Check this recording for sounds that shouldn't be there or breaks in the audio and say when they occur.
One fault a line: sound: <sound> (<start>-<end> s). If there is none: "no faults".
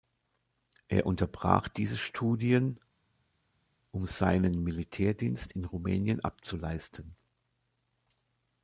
no faults